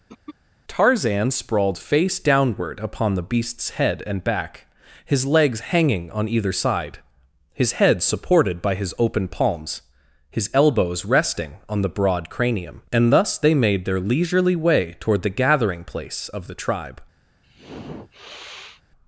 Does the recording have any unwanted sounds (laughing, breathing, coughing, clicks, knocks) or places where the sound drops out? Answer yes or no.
yes